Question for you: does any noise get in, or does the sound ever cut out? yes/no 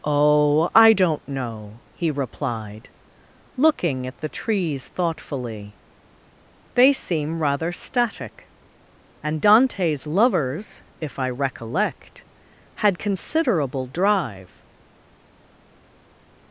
no